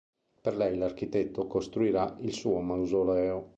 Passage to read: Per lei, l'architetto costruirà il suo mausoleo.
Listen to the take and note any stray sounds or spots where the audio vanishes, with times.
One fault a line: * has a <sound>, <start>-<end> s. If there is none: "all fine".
all fine